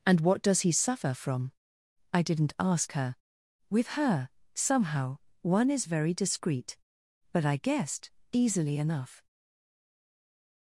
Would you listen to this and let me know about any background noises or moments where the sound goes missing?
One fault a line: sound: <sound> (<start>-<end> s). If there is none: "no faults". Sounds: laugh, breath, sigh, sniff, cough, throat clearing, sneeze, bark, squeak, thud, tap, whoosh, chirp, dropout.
no faults